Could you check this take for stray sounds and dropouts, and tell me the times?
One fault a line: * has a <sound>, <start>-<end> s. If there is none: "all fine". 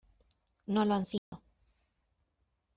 * has a dropout, 1.2-1.3 s